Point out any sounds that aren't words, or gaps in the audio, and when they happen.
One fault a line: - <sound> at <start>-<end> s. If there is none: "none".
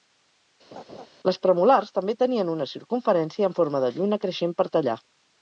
- laugh at 0.7-1.1 s